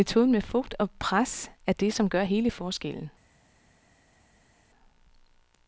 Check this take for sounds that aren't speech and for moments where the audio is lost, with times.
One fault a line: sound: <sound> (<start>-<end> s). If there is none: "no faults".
no faults